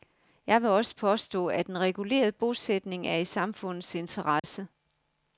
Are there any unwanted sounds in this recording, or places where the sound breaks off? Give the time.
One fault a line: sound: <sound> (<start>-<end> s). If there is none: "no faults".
sound: dropout (4.4-4.4 s)